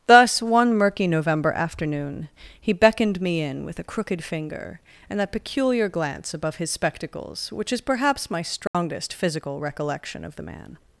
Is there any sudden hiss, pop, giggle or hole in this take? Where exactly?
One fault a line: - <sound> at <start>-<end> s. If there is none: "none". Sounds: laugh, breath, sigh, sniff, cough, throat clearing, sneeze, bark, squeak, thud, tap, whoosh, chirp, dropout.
- dropout at 8.7-8.7 s